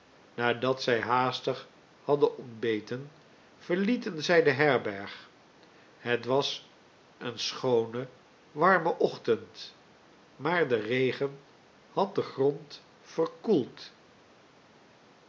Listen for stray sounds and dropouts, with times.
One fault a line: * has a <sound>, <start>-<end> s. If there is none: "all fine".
all fine